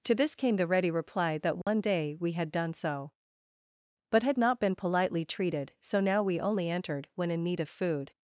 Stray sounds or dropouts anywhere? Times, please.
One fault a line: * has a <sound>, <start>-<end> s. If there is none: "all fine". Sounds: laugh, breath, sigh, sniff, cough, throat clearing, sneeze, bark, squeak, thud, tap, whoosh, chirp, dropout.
* has a dropout, 1.6-1.7 s